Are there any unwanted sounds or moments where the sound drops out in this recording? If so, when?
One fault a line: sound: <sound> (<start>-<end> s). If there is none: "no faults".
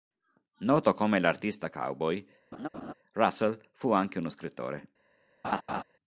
sound: laugh (2.5-2.9 s)
sound: laugh (5.4-5.8 s)